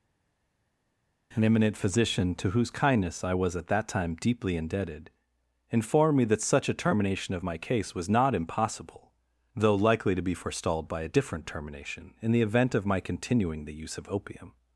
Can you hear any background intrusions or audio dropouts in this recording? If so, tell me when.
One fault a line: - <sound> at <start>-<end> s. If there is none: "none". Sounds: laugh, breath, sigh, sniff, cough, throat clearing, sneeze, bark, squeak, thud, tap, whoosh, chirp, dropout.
none